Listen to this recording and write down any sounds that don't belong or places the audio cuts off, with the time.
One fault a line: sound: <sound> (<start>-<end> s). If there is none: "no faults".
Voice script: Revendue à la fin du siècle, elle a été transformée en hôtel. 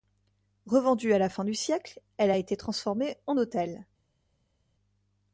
no faults